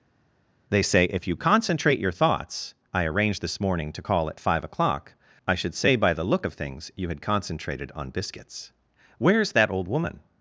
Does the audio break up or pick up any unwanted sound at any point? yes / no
no